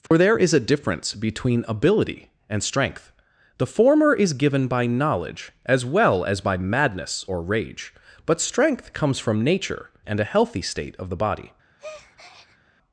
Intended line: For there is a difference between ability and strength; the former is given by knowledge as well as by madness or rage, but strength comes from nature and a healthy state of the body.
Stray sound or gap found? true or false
true